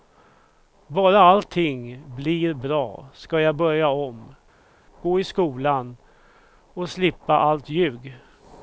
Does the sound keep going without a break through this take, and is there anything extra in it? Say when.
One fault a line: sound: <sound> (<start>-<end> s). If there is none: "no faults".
no faults